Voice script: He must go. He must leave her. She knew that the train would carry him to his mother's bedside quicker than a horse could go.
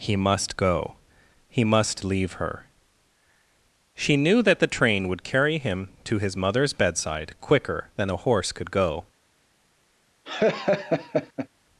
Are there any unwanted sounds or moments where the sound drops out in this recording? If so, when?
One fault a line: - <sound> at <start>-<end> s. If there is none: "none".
- laugh at 10.2-11.5 s